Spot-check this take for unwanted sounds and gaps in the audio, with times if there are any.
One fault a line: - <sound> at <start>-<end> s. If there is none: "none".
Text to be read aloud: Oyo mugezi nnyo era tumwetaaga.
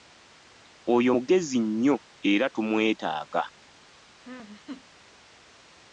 - laugh at 4.2-4.8 s